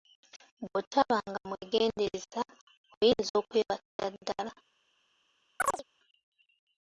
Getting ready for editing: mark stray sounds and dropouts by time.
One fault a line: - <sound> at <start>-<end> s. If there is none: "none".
- dropout at 3.9-4.0 s
- chirp at 5.6-5.8 s